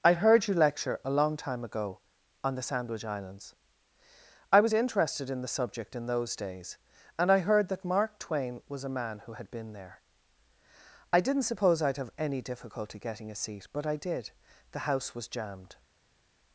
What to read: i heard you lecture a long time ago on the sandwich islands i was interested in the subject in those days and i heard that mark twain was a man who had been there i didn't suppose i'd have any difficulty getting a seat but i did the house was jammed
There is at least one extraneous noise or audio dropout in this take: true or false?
false